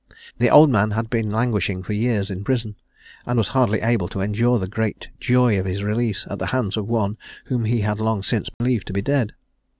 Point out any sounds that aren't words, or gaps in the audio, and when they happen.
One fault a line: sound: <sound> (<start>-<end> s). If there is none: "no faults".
sound: dropout (8.5-8.6 s)